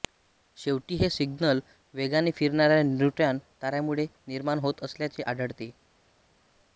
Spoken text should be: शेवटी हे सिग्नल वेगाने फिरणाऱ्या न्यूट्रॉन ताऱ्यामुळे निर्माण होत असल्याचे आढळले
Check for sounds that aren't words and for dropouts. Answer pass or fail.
pass